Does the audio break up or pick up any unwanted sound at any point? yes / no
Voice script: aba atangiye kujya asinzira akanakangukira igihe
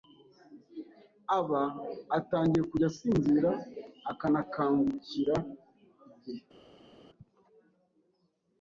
no